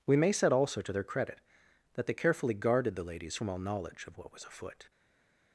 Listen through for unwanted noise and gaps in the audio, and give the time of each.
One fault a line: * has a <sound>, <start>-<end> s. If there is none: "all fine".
all fine